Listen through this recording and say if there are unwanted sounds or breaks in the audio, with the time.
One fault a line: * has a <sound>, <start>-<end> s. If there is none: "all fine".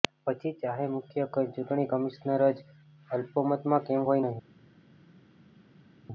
all fine